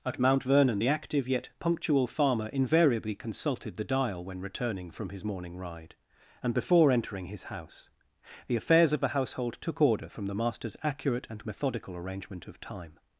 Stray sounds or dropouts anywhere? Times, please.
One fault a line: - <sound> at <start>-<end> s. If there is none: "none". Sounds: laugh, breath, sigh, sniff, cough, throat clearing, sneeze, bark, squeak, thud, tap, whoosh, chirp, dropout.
none